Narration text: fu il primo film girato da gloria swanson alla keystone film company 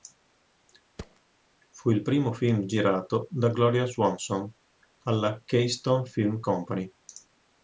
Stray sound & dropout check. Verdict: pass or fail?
fail